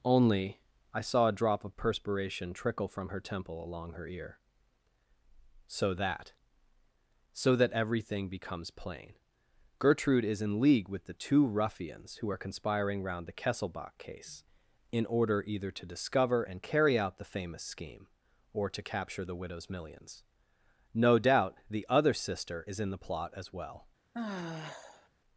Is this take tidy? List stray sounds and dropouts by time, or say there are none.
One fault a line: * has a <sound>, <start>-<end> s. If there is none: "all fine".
* has a sigh, 24.1-25.1 s